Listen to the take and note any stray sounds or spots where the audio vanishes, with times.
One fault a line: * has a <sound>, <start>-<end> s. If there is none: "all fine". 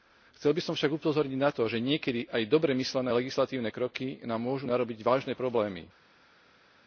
all fine